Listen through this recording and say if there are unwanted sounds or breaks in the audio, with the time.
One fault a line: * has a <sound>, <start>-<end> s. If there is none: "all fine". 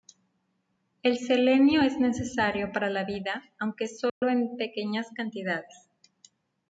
* has a dropout, 4.1-4.2 s